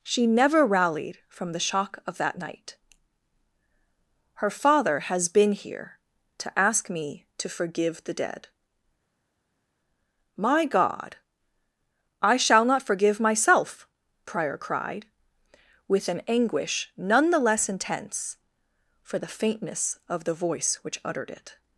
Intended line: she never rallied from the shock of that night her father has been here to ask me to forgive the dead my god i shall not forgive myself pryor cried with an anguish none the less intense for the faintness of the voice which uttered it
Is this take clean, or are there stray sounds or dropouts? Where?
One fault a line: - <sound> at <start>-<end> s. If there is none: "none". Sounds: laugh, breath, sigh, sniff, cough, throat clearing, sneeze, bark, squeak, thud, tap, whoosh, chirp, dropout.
none